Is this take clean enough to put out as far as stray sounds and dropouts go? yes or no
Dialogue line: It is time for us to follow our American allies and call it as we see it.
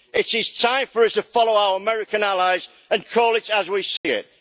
no